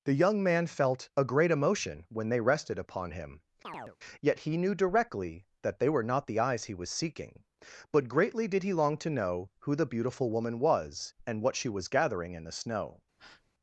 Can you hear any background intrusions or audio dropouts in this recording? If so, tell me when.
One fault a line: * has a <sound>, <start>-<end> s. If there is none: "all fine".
* has a chirp, 3.6-4.0 s
* has a breath, 13.2-13.5 s